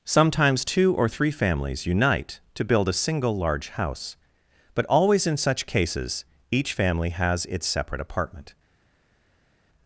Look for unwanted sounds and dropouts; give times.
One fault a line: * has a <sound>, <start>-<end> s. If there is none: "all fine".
all fine